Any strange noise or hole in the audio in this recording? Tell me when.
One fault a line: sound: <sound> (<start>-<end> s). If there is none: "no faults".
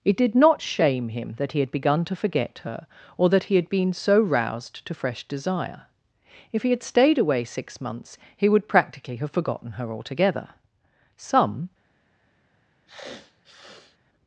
sound: sniff (12.9-14.0 s)